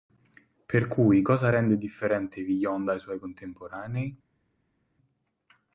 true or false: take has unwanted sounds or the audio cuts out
false